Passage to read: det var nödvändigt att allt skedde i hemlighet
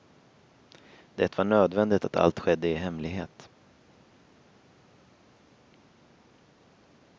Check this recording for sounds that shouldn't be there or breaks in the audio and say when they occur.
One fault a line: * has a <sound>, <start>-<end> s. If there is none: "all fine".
all fine